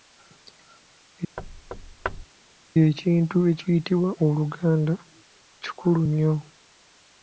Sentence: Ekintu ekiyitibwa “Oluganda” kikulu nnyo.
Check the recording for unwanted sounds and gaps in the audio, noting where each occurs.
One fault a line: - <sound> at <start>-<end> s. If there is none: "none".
- thud at 1.4-2.3 s